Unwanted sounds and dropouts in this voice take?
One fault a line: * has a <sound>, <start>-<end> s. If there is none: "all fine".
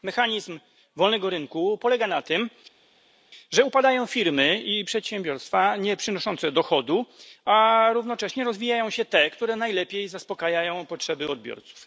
all fine